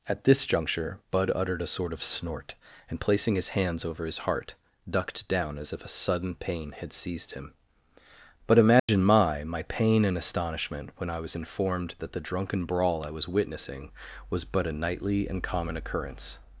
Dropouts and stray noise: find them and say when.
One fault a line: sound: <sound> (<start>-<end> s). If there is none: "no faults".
sound: dropout (8.8-8.9 s)